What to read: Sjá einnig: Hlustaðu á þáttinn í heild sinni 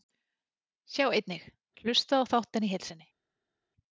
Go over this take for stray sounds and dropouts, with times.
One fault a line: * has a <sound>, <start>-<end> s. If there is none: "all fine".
all fine